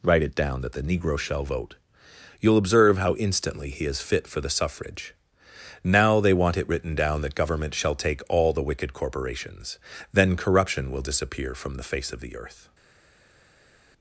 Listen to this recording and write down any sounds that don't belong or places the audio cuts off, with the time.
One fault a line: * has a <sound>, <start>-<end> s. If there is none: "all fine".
all fine